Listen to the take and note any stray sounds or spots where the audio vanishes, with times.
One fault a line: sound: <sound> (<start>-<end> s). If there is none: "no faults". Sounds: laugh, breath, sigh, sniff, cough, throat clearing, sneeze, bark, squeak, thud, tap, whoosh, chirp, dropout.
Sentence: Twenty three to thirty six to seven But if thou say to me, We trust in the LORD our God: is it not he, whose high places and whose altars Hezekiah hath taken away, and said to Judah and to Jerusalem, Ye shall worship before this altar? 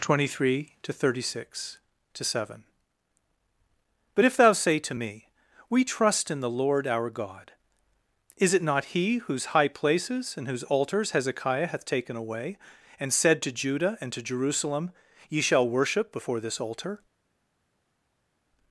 no faults